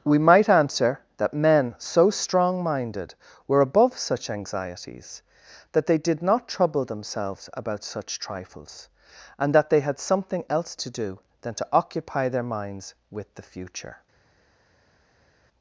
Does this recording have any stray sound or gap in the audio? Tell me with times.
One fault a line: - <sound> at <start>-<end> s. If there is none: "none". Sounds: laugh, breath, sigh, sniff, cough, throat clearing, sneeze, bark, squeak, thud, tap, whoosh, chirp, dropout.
none